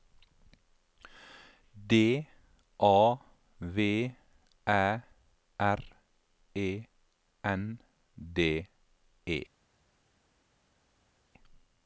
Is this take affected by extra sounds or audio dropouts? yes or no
no